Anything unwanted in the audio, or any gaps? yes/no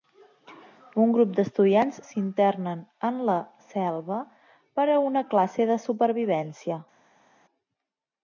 no